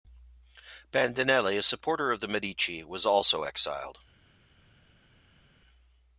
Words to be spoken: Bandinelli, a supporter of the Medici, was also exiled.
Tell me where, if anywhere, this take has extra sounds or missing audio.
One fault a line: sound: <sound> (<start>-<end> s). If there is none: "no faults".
no faults